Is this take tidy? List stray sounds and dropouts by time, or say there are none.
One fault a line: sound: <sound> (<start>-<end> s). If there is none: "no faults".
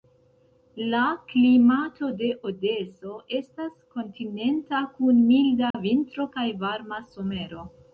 sound: dropout (5.7-5.7 s)